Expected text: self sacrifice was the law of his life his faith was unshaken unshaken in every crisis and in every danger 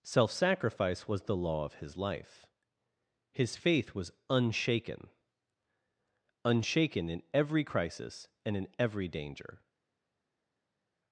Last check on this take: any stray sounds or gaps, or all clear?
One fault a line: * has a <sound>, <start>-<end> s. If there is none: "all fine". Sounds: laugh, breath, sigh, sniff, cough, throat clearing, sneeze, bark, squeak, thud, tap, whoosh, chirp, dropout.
all fine